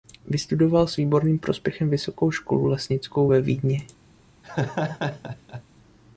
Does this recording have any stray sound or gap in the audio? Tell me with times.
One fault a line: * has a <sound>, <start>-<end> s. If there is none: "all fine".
* has a laugh, 4.4-5.6 s